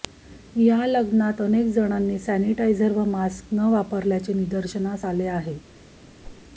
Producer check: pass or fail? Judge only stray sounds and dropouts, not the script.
fail